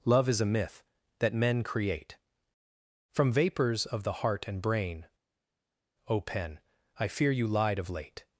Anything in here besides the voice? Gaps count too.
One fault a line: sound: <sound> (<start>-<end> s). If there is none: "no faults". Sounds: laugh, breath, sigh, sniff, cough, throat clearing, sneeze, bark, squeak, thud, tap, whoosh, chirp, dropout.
no faults